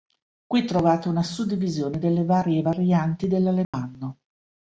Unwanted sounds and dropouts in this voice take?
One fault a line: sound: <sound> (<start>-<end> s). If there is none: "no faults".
sound: dropout (3.6-3.7 s)